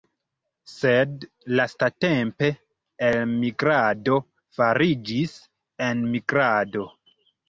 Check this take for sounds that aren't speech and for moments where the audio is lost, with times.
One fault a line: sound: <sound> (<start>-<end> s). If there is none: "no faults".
no faults